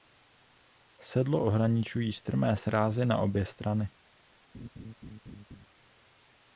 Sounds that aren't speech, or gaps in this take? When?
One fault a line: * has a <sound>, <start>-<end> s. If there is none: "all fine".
* has a laugh, 4.5-5.7 s